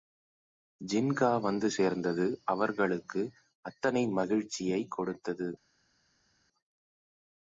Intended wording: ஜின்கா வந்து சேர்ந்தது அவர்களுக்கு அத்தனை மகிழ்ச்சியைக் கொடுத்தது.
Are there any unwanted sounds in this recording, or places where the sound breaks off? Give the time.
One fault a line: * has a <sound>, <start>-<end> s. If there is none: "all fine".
all fine